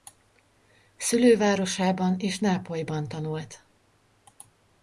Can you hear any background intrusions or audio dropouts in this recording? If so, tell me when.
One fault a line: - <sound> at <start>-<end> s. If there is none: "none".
none